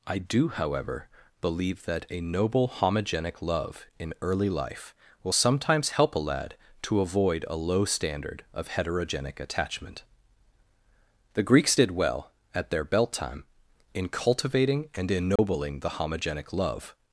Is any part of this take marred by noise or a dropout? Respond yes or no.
yes